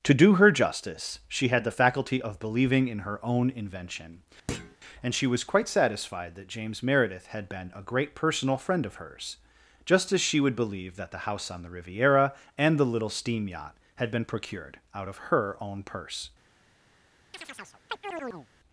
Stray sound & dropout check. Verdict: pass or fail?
fail